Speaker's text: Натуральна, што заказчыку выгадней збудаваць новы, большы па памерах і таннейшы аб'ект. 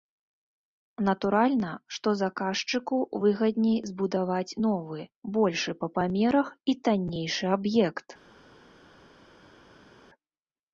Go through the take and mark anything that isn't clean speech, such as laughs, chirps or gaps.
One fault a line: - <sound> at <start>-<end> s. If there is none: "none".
none